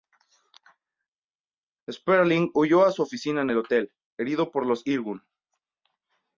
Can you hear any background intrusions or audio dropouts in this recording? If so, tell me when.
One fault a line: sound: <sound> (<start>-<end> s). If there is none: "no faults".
no faults